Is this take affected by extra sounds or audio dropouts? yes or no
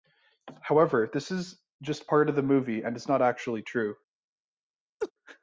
yes